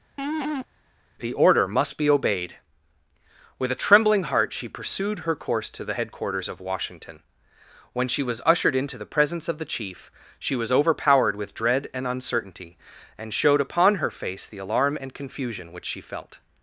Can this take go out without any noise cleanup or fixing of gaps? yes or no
no